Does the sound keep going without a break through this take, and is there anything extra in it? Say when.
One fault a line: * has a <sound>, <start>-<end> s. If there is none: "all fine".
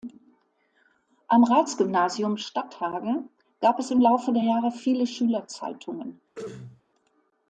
* has a throat clearing, 6.3-6.8 s